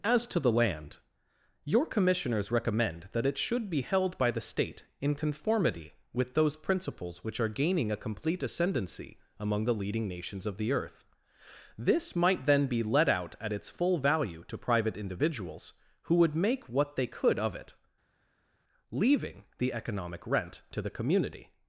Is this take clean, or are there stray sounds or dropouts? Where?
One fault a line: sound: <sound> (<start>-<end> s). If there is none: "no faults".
no faults